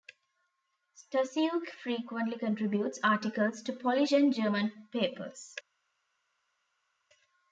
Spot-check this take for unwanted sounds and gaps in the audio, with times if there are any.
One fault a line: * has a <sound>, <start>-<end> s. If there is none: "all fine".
all fine